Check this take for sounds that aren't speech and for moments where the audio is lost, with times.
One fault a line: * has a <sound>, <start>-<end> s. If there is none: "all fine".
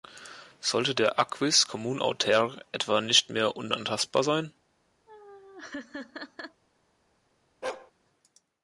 * has a laugh, 5.1-6.6 s
* has a bark, 7.6-7.9 s